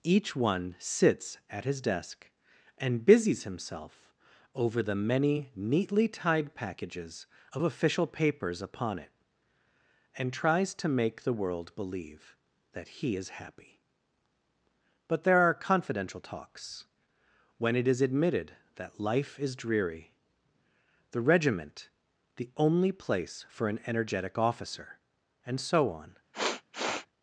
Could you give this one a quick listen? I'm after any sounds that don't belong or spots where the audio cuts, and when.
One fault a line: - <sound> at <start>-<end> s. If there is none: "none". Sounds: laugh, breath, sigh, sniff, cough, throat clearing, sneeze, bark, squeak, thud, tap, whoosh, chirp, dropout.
- sniff at 26.3-27.1 s